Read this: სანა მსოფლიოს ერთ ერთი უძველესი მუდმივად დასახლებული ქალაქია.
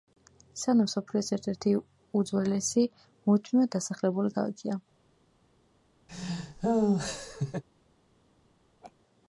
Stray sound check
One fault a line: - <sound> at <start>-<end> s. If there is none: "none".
- laugh at 6.1-7.6 s
- laugh at 8.8-8.9 s